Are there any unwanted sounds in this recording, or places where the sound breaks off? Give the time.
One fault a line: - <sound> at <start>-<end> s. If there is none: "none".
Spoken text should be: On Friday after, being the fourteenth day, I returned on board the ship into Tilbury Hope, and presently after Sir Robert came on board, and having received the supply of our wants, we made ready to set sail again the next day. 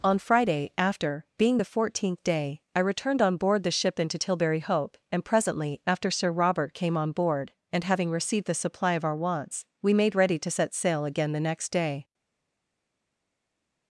none